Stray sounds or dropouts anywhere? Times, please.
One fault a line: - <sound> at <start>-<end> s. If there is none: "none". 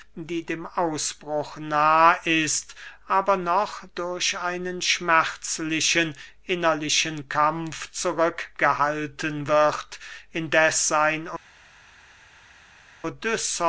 none